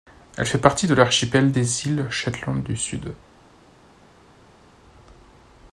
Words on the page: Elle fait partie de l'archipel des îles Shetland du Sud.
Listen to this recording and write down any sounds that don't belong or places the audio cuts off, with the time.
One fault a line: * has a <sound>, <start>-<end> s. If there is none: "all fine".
all fine